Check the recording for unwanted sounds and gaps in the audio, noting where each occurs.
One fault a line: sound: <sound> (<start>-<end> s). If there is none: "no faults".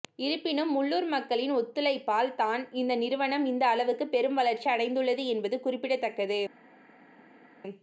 no faults